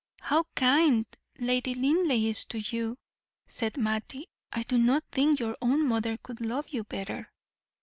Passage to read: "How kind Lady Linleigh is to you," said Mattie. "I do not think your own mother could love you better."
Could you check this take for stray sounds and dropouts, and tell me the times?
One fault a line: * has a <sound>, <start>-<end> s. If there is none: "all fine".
all fine